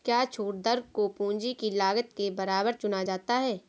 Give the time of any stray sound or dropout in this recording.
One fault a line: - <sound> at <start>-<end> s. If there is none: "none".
none